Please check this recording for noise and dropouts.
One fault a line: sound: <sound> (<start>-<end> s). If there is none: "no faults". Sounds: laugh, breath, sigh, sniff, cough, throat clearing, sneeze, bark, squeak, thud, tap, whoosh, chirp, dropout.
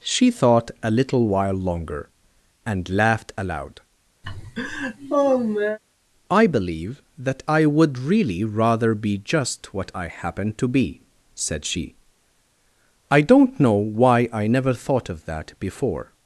sound: laugh (4.2-5.8 s)